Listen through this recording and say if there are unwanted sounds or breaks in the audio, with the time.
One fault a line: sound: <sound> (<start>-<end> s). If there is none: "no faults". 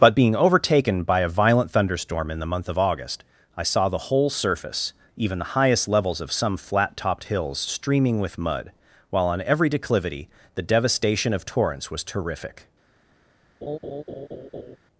sound: laugh (13.6-14.8 s)